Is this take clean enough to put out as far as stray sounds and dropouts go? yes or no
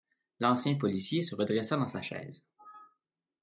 yes